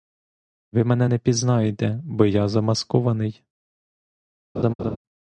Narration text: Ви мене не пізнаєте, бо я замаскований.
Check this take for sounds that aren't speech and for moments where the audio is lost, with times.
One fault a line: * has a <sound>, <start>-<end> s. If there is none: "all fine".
* has a laugh, 4.6-5.0 s